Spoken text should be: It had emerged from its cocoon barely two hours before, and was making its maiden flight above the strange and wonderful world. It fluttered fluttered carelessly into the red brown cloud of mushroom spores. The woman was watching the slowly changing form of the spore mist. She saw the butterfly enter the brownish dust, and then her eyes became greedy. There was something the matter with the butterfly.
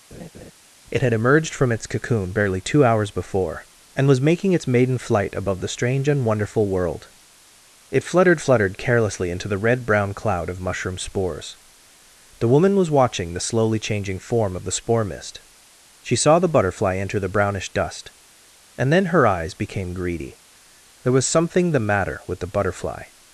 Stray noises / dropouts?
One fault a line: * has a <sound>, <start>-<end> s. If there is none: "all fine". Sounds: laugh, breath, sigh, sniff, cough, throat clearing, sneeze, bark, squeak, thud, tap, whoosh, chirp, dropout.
* has a laugh, 0.1-0.5 s